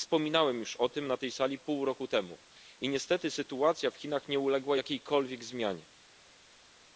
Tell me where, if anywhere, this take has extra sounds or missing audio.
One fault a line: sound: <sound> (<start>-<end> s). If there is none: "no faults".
no faults